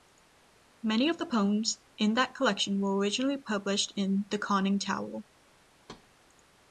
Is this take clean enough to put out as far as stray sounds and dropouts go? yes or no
no